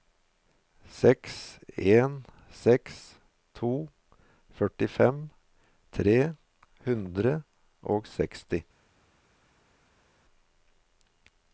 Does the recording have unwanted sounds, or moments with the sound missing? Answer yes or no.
no